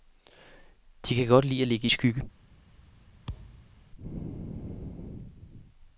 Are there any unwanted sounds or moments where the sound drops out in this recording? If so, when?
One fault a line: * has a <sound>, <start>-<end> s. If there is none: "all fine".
* has a thud, 3.3-3.8 s